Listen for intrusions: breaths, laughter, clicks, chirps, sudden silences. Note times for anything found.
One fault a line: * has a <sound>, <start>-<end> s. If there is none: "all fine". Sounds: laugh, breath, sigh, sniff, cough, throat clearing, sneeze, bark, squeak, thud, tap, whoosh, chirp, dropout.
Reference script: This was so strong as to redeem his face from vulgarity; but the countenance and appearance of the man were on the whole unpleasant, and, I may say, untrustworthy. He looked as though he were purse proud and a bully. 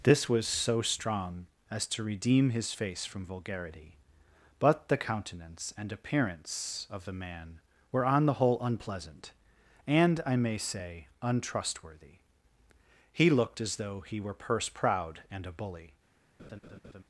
* has a laugh, 16.4-17.0 s